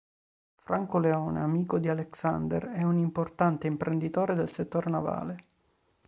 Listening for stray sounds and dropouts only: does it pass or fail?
pass